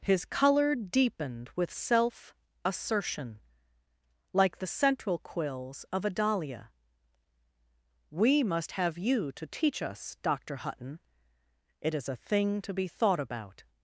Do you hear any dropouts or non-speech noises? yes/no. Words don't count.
no